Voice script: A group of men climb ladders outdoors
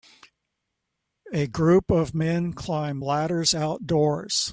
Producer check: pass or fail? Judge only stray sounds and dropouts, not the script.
pass